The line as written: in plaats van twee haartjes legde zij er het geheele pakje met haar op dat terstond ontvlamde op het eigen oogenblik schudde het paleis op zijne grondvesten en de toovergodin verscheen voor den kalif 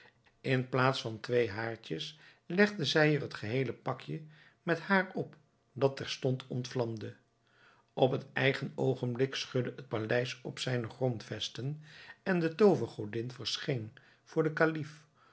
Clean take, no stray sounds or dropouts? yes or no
yes